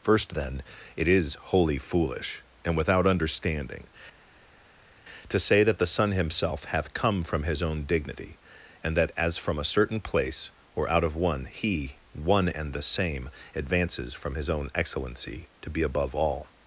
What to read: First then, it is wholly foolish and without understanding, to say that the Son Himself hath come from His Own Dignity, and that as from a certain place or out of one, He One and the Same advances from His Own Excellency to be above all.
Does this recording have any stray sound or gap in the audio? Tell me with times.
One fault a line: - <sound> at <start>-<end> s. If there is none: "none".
none